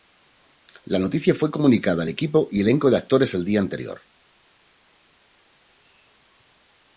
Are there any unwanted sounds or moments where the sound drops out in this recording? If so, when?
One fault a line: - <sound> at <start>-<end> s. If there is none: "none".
none